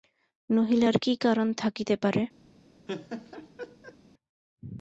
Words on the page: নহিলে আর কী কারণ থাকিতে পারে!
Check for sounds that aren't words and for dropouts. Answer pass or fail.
fail